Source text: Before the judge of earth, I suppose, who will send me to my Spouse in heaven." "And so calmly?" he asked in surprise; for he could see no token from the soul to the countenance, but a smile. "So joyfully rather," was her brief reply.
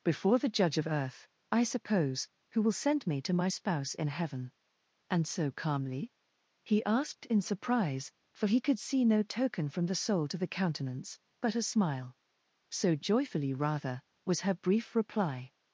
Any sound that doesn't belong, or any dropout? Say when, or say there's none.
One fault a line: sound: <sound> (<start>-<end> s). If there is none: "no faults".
no faults